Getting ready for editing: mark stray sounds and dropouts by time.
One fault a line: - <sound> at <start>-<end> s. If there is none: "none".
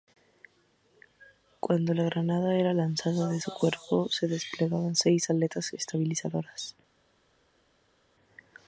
none